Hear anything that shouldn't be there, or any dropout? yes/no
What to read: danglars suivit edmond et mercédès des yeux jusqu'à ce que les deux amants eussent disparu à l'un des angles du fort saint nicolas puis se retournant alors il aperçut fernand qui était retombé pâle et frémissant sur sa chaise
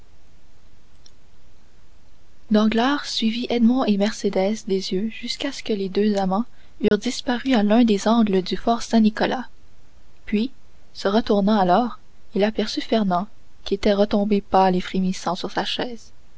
yes